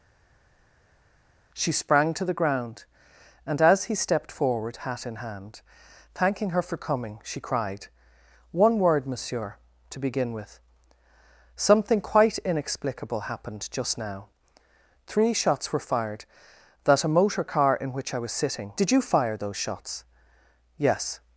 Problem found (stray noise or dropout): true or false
false